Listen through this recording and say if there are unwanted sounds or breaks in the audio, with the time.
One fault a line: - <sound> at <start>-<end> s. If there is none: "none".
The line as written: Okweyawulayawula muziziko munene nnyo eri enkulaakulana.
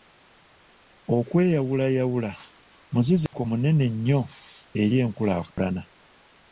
- dropout at 3.3-3.3 s
- dropout at 5.5-5.6 s